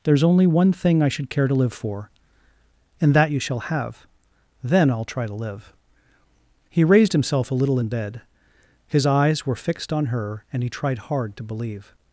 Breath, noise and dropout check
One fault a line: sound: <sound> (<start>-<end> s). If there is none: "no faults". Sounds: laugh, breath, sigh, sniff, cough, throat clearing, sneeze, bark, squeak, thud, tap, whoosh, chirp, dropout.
no faults